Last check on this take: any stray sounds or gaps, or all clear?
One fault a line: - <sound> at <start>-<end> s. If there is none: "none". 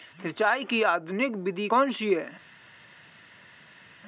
none